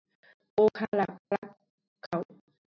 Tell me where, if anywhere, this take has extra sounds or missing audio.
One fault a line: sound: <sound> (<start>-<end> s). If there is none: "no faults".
sound: dropout (1.2-1.3 s)